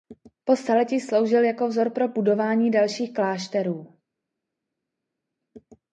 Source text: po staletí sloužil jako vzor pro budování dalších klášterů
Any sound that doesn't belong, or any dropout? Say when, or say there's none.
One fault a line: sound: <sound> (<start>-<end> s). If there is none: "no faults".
no faults